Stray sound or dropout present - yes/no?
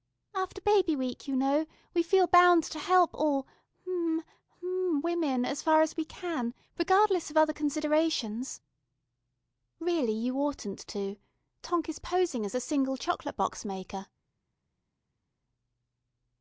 no